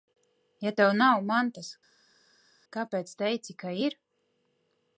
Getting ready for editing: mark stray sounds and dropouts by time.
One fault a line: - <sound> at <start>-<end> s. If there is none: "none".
none